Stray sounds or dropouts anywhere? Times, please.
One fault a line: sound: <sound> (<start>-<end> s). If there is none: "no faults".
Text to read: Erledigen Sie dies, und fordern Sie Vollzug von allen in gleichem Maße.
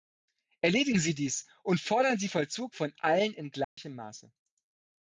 sound: dropout (3.6-3.8 s)